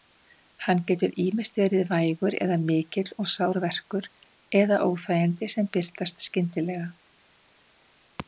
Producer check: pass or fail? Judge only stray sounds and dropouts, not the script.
pass